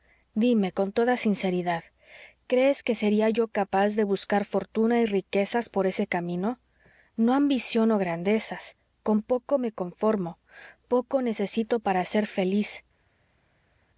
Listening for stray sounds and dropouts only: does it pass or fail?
pass